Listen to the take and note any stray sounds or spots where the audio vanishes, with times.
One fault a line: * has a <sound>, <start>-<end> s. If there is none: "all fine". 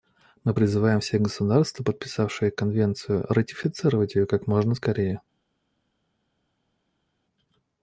all fine